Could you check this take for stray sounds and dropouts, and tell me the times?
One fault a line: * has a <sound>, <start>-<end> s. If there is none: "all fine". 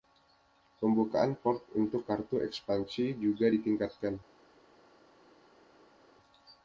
all fine